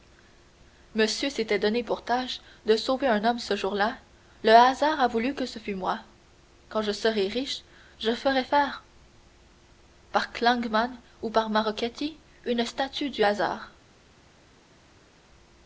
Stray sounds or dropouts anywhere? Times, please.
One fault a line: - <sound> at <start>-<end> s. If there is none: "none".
none